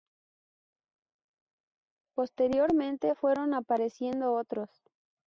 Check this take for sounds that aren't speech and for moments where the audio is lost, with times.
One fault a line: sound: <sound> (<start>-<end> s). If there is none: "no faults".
no faults